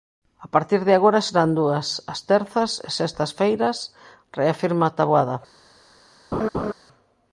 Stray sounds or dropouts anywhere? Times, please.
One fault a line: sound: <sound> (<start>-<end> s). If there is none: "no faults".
sound: laugh (6.3-6.7 s)